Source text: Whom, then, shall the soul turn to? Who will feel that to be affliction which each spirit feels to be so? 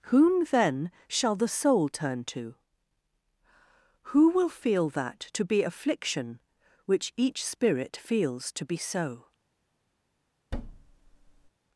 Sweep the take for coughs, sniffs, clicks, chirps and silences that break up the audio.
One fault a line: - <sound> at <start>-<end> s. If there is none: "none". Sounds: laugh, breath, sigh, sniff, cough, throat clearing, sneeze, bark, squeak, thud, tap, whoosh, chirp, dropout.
- thud at 10.5-11.5 s